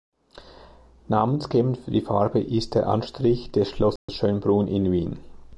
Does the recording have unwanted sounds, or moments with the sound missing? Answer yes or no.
yes